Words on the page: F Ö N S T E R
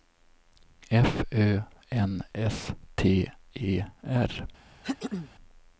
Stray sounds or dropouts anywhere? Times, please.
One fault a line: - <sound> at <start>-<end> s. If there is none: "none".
- throat clearing at 4.8-5.3 s